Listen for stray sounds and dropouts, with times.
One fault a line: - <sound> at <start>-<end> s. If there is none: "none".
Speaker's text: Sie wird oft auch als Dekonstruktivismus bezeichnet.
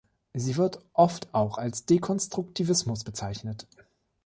none